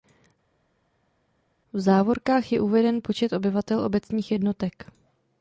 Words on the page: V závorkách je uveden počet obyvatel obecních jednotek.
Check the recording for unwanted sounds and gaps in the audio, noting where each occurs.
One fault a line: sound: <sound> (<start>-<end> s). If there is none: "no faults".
no faults